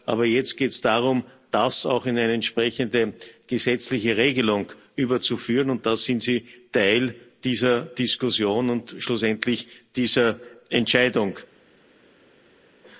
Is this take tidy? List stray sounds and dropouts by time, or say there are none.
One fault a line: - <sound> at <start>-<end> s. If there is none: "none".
none